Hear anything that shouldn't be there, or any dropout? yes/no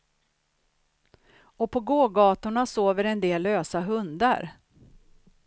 no